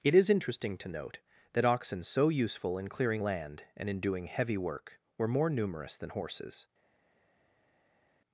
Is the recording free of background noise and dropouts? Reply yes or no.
yes